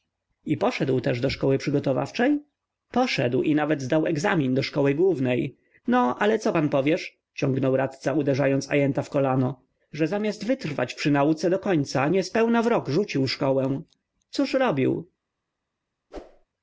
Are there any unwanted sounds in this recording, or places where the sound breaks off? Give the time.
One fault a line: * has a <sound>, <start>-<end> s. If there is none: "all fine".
* has a whoosh, 16.1-16.5 s